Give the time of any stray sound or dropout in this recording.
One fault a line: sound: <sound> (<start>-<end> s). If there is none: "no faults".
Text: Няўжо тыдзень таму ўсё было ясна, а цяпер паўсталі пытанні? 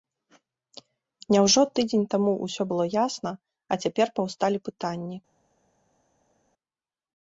no faults